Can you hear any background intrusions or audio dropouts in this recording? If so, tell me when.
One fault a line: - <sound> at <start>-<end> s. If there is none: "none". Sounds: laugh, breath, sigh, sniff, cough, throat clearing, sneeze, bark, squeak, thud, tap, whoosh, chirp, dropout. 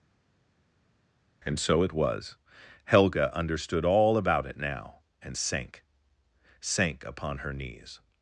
none